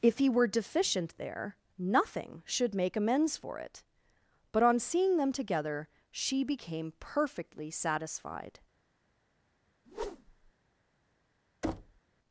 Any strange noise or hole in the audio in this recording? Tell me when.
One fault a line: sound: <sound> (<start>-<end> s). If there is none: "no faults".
sound: whoosh (9.8-10.5 s)
sound: thud (11.6-12.0 s)